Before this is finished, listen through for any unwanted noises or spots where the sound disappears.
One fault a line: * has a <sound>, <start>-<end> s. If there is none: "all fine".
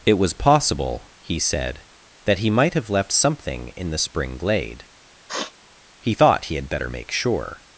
* has a sniff, 5.3-5.5 s